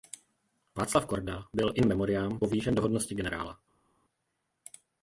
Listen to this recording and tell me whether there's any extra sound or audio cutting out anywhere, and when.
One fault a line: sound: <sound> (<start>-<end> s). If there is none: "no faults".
no faults